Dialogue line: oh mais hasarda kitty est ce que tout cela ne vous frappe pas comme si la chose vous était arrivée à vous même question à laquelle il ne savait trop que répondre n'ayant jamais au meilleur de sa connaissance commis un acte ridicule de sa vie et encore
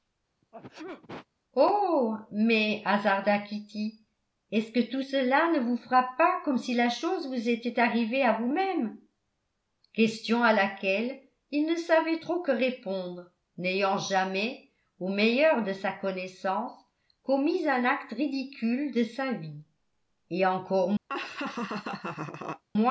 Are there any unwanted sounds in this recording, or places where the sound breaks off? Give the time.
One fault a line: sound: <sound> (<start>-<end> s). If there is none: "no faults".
sound: sneeze (0.4-1.3 s)
sound: laugh (21.1-22.6 s)